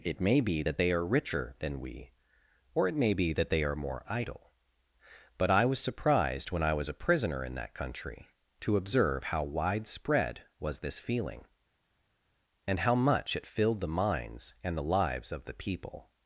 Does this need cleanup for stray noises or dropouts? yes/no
no